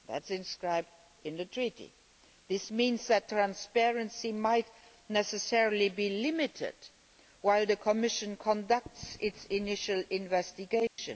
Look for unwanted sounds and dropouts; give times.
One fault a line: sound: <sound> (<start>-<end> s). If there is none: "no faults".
sound: dropout (10.9-11.0 s)